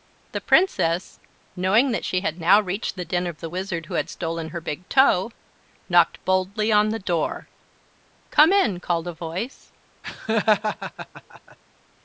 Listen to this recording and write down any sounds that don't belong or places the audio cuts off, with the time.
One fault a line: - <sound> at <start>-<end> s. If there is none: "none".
- laugh at 10.0-11.6 s